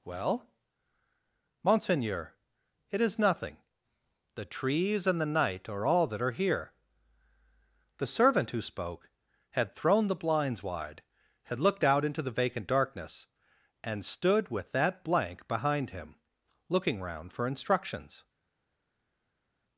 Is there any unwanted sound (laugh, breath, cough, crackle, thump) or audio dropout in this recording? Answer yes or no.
no